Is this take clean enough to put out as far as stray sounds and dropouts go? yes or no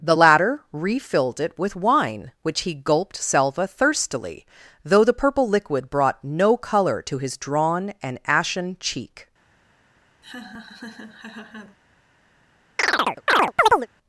no